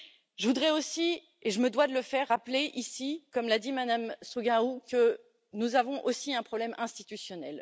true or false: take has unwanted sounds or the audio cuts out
false